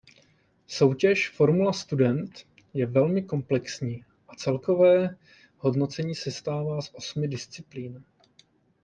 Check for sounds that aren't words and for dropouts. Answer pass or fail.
pass